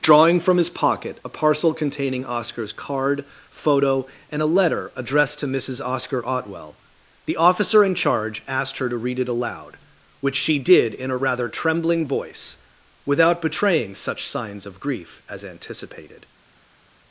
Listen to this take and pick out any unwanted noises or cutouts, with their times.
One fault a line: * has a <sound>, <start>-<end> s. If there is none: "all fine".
all fine